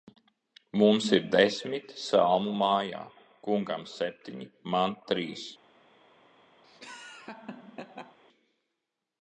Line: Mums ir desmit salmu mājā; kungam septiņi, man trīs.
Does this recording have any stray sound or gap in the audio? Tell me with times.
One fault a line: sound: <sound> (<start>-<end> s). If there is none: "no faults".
sound: laugh (6.6-8.2 s)